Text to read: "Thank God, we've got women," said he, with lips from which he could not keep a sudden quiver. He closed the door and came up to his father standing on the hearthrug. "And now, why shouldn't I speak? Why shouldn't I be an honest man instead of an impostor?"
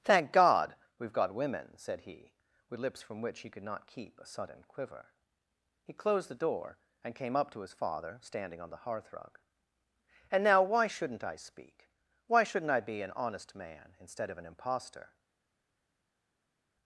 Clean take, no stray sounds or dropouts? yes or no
yes